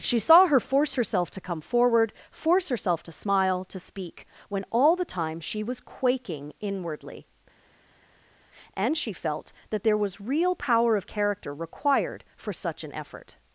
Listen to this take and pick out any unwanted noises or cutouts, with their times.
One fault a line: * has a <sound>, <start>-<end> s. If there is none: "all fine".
all fine